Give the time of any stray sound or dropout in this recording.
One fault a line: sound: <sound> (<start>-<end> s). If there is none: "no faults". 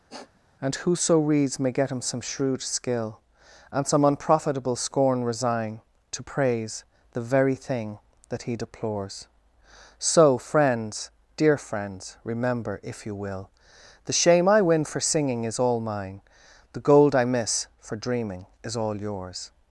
sound: sniff (0.1-0.4 s)